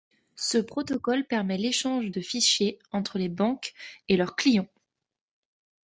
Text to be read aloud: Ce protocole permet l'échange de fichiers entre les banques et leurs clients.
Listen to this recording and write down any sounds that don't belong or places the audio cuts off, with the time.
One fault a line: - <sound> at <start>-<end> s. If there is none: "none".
none